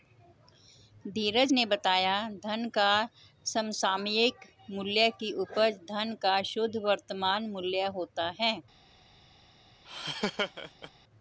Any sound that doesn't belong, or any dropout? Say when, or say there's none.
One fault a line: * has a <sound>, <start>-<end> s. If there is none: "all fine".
* has a laugh, 9.8-10.9 s